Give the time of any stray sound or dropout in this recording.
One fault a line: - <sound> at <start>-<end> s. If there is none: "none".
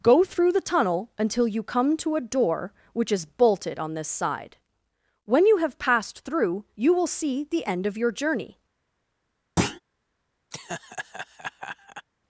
- thud at 9.6-9.8 s
- laugh at 10.5-12.1 s